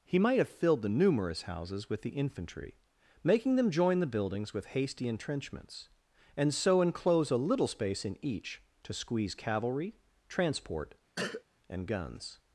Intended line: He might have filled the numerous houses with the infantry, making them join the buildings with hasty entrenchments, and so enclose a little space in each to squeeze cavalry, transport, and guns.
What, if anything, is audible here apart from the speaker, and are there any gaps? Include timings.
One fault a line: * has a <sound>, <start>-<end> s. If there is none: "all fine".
* has a cough, 11.2-11.4 s